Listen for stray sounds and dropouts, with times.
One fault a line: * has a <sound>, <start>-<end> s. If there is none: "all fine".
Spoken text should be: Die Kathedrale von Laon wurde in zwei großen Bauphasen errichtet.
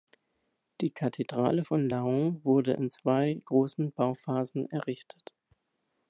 all fine